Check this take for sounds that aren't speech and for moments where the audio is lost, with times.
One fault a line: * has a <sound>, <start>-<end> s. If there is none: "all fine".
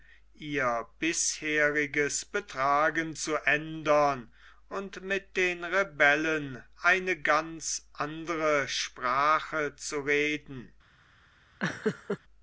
* has a laugh, 11.6-12.2 s